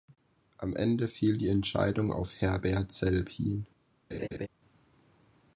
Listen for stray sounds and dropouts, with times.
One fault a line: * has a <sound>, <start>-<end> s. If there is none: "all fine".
* has a laugh, 4.1-4.5 s